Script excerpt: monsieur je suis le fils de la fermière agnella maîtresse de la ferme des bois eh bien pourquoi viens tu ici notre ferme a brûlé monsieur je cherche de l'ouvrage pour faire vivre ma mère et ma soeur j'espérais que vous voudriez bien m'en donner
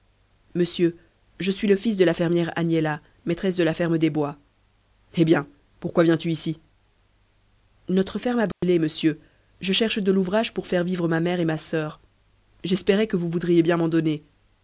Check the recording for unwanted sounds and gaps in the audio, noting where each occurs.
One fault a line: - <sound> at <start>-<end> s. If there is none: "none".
- dropout at 8.5-8.6 s